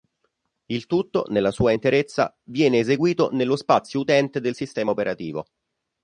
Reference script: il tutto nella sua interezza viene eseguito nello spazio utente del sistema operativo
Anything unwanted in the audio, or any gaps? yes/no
no